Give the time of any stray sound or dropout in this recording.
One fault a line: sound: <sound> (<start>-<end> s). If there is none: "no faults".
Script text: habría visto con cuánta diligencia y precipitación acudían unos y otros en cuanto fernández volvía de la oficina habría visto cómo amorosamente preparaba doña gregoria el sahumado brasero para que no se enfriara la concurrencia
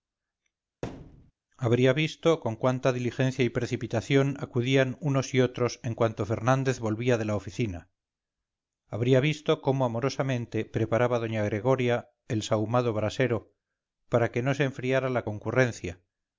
sound: thud (0.8-1.3 s)